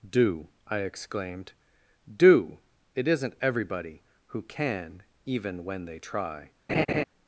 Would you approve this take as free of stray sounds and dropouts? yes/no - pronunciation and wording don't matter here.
no